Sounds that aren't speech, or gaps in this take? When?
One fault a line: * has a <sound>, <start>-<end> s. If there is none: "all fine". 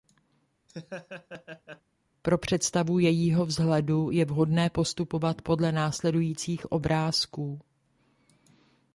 * has a laugh, 0.7-1.8 s